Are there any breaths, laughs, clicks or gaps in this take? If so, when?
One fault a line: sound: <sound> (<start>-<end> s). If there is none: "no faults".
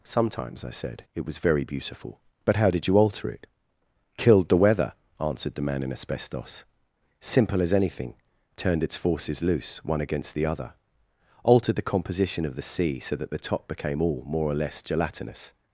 no faults